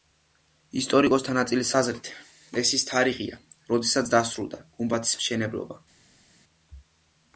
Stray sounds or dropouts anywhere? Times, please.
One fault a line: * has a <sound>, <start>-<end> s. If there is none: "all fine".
all fine